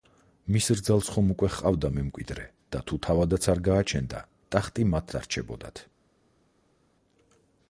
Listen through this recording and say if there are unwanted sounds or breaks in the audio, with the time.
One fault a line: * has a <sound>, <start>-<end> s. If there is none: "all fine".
all fine